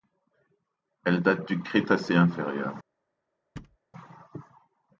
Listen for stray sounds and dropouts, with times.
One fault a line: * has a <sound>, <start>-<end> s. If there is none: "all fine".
* has a thud, 3.6-3.8 s